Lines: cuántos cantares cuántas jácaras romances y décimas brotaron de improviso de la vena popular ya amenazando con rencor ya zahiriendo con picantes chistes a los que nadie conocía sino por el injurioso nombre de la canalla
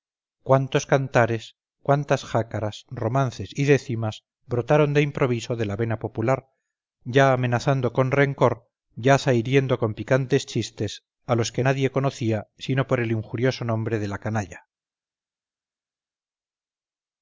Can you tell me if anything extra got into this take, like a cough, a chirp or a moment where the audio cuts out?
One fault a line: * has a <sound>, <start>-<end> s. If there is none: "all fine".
all fine